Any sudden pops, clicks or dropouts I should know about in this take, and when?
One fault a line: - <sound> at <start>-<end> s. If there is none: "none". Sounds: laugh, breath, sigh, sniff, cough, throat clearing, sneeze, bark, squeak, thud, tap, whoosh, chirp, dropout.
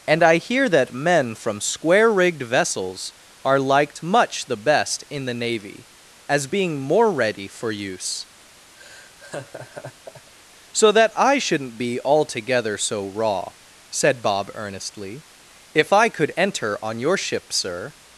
- laugh at 8.8-10.3 s